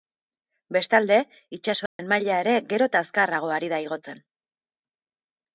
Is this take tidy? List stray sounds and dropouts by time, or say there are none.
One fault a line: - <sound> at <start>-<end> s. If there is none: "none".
- dropout at 1.9-2.0 s